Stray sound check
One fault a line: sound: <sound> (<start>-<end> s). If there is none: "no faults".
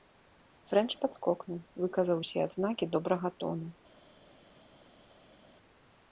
no faults